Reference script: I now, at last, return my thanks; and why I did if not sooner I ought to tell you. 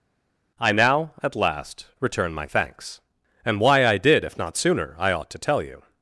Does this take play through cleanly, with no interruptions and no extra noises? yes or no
yes